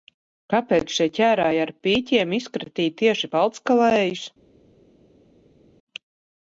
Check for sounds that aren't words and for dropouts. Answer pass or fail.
pass